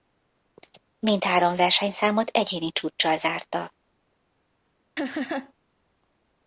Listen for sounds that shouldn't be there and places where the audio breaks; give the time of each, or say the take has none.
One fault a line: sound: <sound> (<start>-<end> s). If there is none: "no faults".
sound: laugh (5.0-5.5 s)